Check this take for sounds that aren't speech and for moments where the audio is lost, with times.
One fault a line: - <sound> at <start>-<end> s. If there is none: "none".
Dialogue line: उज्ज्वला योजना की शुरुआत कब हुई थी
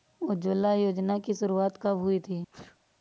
- sneeze at 2.5-2.8 s